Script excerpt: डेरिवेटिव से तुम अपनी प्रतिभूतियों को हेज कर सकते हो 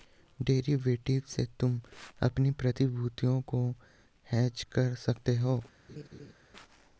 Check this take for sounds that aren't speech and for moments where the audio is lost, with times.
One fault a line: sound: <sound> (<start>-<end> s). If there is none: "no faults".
sound: laugh (5.9-6.3 s)